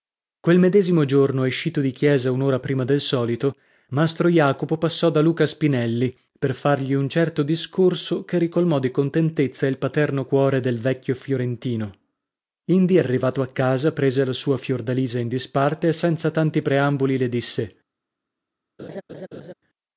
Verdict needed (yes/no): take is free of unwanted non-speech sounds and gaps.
no